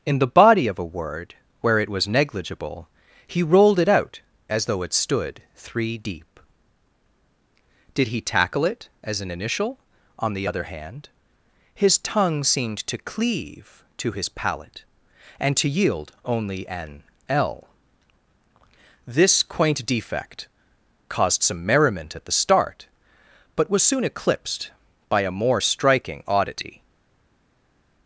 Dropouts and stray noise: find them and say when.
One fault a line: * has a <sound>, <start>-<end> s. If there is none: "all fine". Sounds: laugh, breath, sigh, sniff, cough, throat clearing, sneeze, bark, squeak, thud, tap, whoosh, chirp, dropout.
all fine